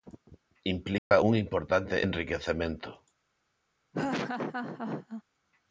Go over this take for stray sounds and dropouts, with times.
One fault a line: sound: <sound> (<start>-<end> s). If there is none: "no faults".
sound: dropout (1.0-1.1 s)
sound: laugh (3.9-5.2 s)